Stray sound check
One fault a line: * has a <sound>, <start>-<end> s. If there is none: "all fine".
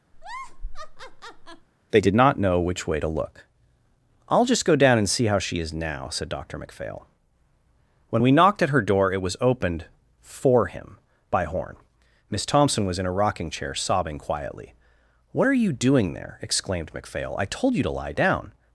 * has a laugh, 0.1-1.7 s